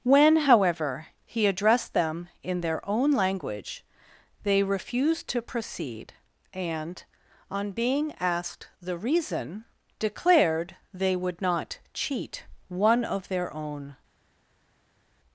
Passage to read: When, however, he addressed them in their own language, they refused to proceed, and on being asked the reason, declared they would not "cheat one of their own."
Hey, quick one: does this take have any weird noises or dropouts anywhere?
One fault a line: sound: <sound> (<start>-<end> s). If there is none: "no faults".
no faults